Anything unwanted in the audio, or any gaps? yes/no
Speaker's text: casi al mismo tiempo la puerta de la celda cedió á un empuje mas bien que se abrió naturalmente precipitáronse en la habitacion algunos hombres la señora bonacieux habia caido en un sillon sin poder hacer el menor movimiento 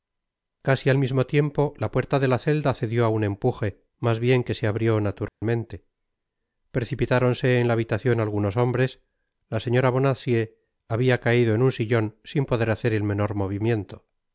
yes